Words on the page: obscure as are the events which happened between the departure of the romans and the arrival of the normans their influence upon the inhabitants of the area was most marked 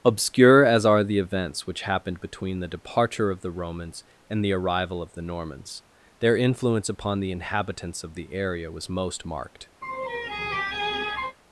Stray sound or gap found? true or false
true